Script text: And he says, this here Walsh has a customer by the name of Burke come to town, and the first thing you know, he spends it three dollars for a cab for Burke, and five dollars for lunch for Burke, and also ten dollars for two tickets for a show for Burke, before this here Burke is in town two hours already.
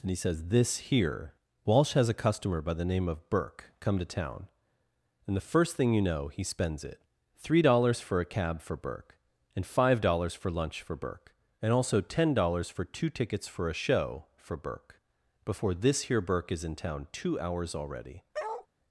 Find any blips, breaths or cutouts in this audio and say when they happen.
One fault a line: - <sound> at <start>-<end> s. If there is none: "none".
- bark at 18.3-18.7 s